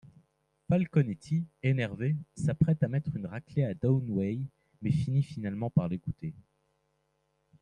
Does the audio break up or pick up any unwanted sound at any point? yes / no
no